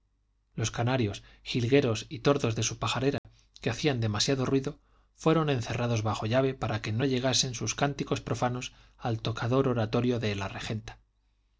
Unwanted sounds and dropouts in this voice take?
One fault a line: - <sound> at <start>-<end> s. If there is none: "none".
- dropout at 3.2-3.2 s